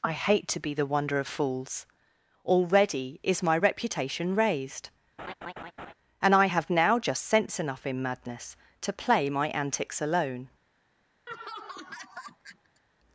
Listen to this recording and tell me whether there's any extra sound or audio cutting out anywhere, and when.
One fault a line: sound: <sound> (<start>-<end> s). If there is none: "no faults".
sound: laugh (5.2-5.9 s)
sound: laugh (11.3-12.8 s)